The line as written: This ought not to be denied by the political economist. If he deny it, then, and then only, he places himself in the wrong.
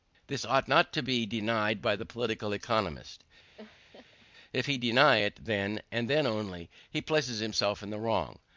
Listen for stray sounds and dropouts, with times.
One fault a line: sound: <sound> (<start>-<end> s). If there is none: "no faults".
sound: laugh (3.6-4.3 s)